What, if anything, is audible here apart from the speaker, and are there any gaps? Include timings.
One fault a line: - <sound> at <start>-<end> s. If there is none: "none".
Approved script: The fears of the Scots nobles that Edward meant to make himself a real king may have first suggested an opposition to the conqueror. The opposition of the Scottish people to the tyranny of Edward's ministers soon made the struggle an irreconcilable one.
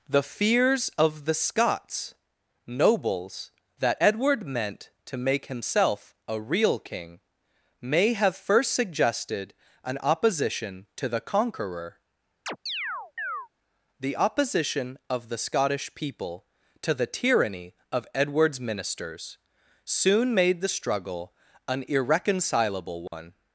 - chirp at 12.5-13.5 s
- dropout at 23.1-23.1 s